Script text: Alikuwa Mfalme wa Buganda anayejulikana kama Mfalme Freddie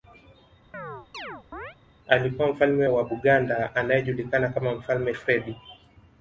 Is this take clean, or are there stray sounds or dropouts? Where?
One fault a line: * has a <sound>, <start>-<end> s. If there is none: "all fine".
* has a chirp, 0.7-1.8 s